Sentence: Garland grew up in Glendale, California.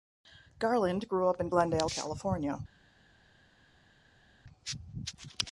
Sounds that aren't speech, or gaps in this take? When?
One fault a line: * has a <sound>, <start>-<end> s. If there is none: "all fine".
all fine